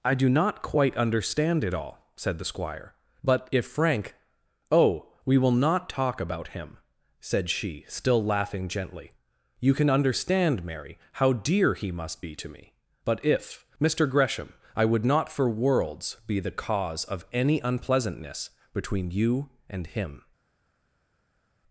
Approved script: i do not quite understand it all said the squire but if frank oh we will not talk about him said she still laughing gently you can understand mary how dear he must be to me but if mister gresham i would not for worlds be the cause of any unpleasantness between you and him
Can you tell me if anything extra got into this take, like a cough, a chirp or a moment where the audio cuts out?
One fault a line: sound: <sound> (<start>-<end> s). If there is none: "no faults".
no faults